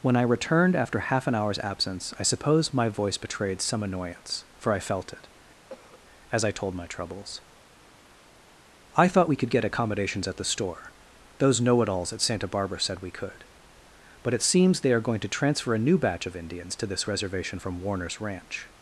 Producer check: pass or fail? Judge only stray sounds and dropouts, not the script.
fail